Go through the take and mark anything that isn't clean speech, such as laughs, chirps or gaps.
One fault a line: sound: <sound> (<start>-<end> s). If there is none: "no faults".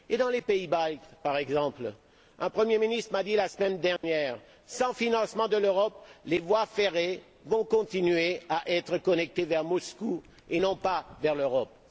sound: dropout (4.0-4.0 s)